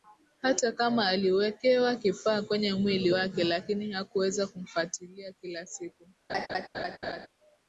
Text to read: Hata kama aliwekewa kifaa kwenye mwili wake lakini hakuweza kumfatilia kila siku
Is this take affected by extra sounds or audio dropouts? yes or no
yes